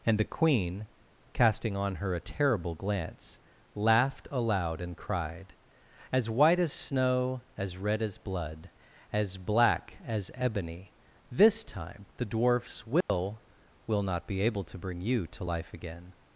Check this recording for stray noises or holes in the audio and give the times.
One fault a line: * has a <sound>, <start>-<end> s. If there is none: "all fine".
* has a dropout, 13.0-13.1 s